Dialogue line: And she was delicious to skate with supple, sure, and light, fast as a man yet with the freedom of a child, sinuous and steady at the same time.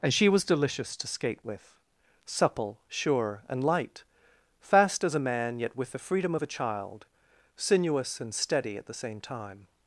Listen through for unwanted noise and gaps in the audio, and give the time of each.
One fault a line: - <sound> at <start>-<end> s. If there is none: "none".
none